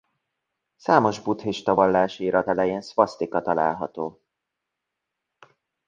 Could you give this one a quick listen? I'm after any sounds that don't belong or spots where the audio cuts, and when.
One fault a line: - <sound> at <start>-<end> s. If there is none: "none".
none